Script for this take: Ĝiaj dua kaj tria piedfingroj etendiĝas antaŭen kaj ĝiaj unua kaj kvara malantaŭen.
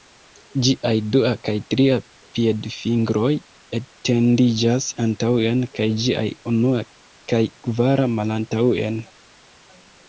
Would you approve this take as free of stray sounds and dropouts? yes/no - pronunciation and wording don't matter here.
yes